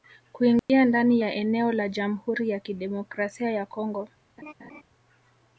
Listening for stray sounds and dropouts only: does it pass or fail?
fail